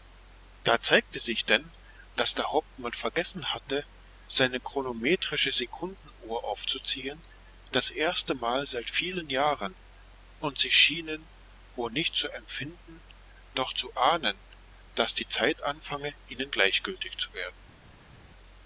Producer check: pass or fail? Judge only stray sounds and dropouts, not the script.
pass